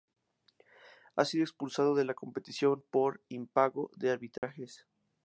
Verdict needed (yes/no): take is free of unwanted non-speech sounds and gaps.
no